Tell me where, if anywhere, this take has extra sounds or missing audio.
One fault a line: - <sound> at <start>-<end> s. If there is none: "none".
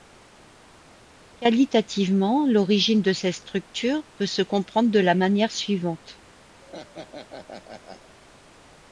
- laugh at 6.6-8.2 s